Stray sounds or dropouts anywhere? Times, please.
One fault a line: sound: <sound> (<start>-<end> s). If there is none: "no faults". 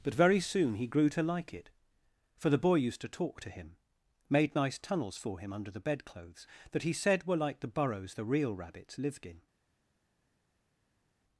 no faults